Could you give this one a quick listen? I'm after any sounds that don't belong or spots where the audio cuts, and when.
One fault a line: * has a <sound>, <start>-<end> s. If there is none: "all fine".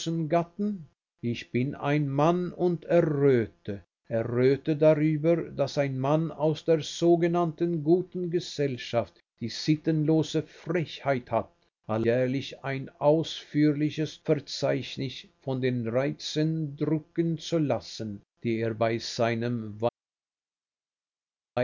all fine